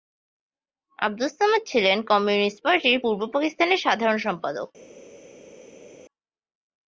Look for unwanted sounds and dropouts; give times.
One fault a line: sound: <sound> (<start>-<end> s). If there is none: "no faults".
no faults